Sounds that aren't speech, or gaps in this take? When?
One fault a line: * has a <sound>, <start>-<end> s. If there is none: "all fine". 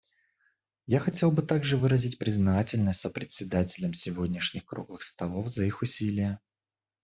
all fine